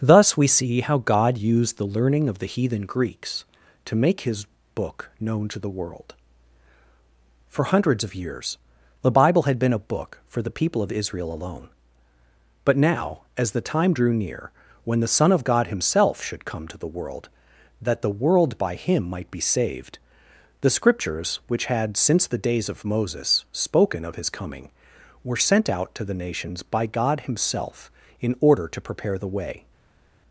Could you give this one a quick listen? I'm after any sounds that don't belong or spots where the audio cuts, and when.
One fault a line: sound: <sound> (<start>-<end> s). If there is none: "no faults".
no faults